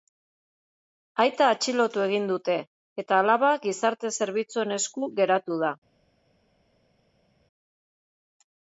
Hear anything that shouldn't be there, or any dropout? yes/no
no